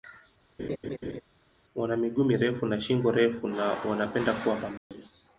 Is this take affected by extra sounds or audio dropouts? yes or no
yes